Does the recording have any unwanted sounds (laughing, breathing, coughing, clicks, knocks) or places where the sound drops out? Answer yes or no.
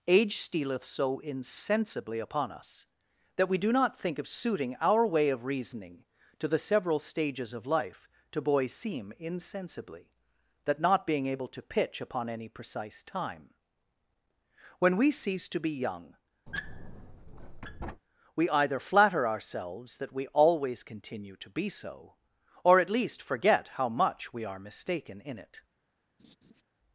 yes